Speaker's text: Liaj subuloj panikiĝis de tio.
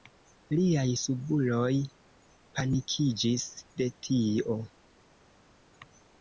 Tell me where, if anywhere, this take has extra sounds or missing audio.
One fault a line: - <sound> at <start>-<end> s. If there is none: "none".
none